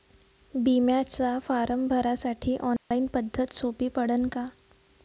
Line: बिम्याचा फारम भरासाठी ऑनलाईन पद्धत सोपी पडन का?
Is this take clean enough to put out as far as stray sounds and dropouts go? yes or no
no